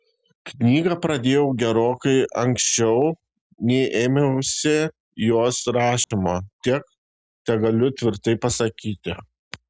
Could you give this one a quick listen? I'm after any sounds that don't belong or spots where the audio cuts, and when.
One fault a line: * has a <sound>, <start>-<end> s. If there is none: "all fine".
* has a dropout, 6.0-6.1 s